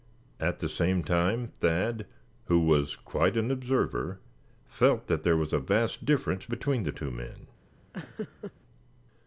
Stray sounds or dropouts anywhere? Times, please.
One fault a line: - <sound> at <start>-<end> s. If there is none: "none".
- laugh at 7.9-8.5 s